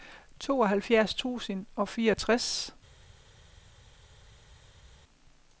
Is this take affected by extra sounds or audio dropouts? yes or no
no